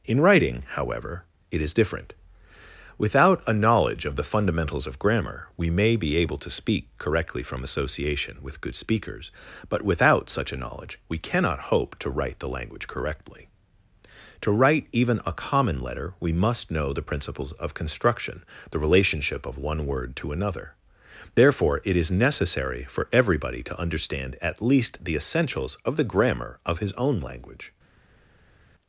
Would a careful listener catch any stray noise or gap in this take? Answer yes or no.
no